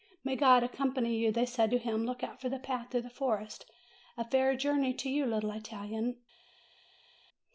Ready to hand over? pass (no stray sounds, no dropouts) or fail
pass